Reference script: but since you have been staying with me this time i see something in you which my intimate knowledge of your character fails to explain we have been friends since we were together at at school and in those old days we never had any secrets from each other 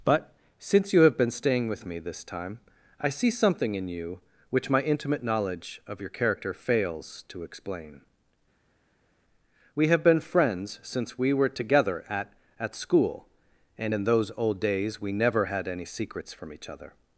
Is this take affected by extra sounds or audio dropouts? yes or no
no